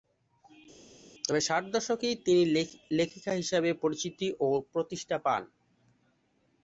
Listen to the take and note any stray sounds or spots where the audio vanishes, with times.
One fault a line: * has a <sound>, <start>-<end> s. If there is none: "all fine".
all fine